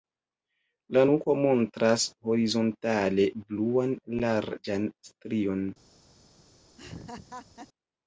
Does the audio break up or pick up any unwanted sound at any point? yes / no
yes